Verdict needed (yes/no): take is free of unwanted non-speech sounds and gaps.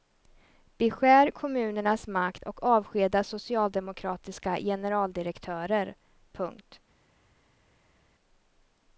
yes